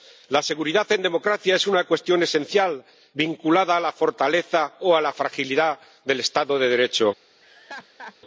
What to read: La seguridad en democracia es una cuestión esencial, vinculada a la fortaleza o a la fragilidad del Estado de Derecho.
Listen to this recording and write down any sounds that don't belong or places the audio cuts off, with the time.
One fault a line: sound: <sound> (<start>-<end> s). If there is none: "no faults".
sound: laugh (7.4-8.2 s)